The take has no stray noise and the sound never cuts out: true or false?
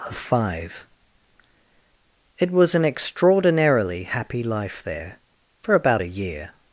true